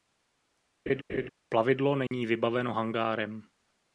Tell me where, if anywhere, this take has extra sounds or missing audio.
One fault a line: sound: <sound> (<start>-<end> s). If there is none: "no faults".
sound: laugh (0.9-1.3 s)
sound: dropout (2.1-2.1 s)